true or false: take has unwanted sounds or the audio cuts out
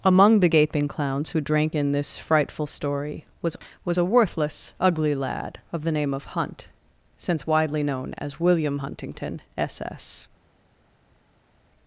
false